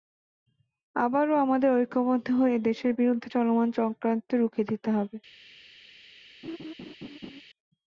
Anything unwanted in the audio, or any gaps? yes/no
yes